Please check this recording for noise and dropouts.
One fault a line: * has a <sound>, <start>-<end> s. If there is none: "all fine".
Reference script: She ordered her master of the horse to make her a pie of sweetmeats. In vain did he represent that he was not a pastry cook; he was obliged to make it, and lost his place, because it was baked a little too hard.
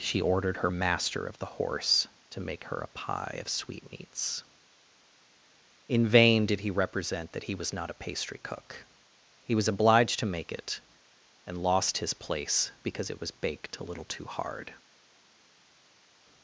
all fine